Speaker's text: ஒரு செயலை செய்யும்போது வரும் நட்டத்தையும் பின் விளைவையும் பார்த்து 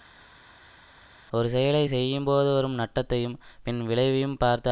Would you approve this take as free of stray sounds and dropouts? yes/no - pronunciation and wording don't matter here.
yes